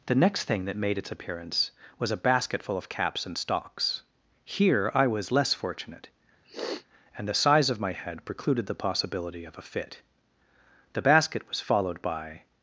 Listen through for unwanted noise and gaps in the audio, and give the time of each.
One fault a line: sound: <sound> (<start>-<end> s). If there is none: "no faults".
sound: sniff (6.4-6.9 s)